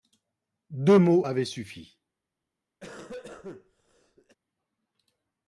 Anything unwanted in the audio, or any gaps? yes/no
yes